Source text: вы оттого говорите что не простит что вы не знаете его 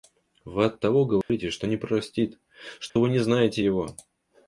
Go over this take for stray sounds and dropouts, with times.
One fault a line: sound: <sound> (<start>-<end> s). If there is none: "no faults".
sound: dropout (1.2-1.3 s)
sound: dropout (2.9-3.0 s)